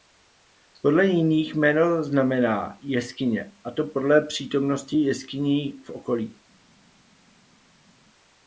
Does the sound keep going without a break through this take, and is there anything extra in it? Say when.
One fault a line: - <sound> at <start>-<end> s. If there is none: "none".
none